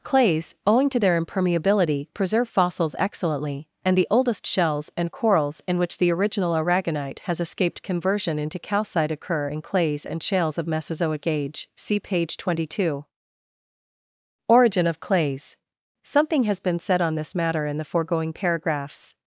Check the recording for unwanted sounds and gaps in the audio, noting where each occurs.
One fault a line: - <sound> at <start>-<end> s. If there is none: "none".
none